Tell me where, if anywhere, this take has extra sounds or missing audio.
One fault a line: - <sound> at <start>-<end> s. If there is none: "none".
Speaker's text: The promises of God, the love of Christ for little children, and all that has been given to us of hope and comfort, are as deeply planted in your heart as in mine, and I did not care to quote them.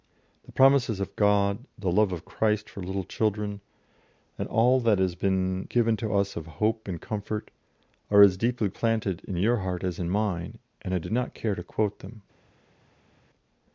none